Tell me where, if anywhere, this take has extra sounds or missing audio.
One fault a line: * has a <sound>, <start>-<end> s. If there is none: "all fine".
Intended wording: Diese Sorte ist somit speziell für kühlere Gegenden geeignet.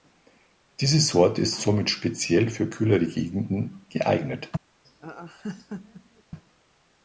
* has a laugh, 4.8-6.2 s